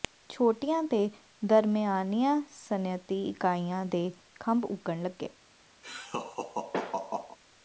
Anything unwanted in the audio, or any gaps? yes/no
yes